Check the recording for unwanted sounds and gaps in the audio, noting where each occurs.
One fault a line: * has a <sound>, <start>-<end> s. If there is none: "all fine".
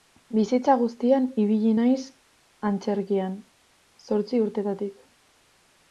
all fine